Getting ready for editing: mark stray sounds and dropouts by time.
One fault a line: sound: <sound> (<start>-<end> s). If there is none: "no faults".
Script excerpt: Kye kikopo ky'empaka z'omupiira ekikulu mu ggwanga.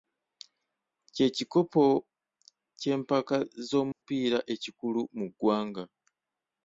sound: dropout (3.9-4.0 s)